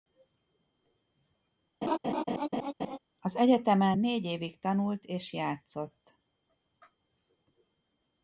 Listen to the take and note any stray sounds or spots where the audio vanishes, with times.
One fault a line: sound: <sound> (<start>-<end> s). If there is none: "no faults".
sound: laugh (1.8-3.0 s)